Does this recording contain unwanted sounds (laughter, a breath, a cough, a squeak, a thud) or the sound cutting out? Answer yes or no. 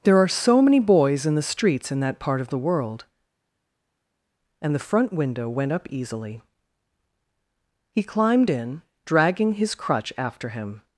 no